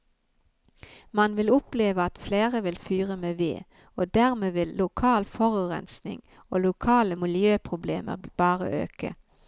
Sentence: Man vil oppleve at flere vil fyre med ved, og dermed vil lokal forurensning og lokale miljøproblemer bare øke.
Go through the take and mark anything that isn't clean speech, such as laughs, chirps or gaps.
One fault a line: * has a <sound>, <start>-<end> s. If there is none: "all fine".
all fine